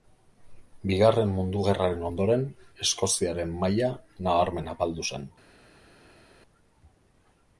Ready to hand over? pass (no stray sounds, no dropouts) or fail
pass